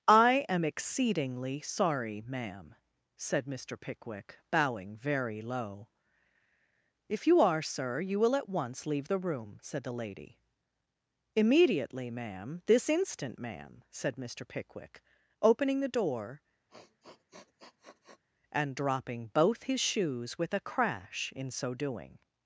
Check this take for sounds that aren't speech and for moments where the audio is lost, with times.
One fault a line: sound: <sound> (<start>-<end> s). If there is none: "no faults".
sound: sniff (16.7-18.2 s)